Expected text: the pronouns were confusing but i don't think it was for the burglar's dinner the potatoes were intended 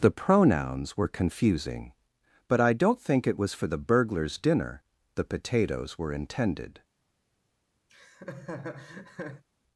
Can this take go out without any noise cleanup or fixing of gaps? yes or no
no